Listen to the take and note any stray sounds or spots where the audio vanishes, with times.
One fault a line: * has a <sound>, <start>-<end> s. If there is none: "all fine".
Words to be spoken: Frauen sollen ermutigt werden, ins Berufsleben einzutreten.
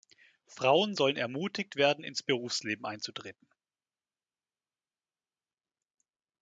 all fine